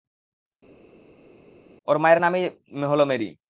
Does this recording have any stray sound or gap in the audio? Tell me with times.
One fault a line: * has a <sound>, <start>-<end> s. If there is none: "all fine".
all fine